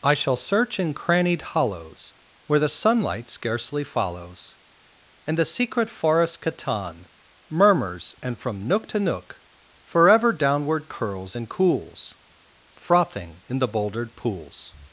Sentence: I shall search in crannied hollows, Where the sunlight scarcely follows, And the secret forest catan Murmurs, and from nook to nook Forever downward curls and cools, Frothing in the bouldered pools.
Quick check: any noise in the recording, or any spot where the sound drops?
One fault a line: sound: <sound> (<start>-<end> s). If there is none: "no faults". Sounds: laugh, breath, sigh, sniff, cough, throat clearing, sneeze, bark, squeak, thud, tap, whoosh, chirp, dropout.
no faults